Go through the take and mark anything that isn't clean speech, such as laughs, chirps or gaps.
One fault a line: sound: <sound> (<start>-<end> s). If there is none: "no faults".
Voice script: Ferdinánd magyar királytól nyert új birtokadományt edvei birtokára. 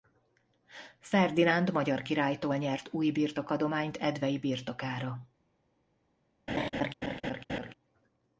sound: laugh (6.5-7.7 s)